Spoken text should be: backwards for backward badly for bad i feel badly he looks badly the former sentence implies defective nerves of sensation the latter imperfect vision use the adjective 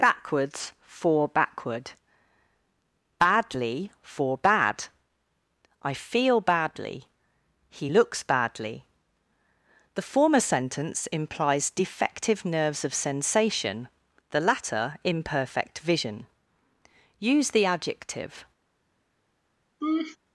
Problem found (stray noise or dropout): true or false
true